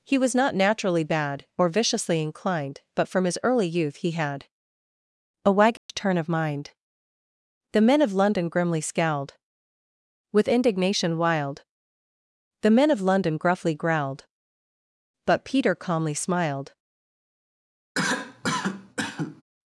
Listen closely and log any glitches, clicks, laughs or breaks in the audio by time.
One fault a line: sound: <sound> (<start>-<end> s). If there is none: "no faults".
sound: dropout (5.8-5.9 s)
sound: cough (18.0-19.4 s)